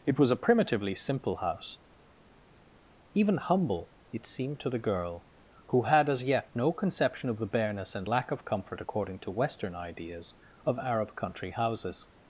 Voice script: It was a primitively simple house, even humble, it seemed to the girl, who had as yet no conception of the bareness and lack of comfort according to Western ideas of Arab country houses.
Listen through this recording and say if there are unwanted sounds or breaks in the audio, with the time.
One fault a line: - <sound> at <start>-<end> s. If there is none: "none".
none